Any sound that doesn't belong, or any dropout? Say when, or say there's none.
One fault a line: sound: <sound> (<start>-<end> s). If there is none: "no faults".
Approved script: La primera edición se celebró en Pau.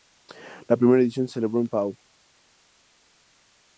no faults